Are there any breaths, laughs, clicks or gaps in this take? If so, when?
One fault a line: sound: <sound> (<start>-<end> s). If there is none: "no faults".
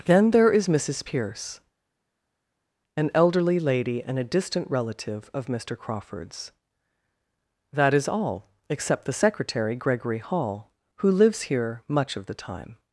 no faults